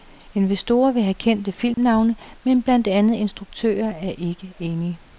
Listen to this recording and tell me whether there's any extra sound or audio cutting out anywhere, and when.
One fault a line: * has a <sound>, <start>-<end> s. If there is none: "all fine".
* has a dropout, 1.7-1.8 s